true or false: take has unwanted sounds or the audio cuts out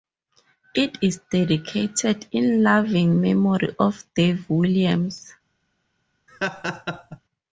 true